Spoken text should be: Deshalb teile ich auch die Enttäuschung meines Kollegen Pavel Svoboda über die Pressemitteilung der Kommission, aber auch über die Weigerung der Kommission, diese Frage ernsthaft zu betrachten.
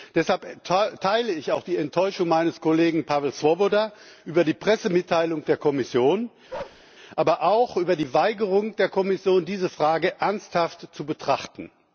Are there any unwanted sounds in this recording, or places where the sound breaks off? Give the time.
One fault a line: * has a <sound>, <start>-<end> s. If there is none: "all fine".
* has a bark, 6.5-6.8 s